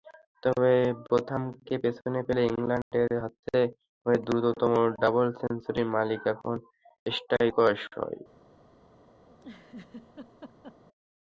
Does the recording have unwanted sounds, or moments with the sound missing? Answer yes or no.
yes